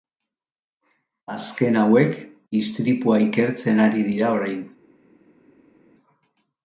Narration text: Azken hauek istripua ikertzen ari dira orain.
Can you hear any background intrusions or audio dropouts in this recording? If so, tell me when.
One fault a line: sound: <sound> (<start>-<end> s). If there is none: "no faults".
no faults